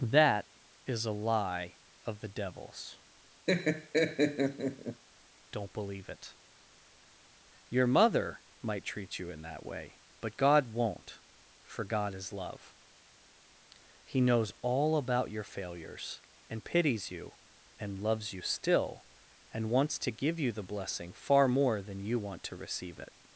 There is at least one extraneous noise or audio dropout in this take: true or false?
true